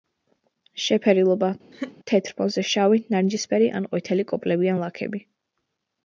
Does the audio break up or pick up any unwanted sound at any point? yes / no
yes